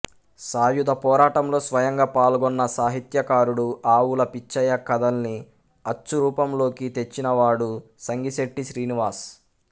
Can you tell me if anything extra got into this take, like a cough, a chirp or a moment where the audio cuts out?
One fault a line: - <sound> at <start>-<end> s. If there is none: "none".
none